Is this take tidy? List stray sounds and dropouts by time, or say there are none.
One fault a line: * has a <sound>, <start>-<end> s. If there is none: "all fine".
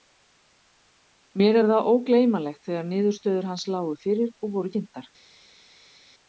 all fine